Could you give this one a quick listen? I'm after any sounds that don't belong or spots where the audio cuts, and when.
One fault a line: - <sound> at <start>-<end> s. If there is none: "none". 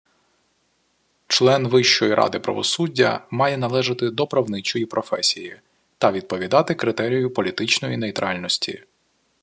none